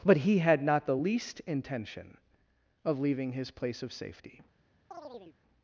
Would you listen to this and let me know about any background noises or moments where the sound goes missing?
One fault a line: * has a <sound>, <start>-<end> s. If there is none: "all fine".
* has a chirp, 4.9-5.4 s